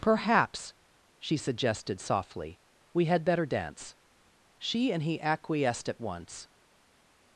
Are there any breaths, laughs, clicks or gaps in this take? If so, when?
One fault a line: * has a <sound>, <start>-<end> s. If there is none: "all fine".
all fine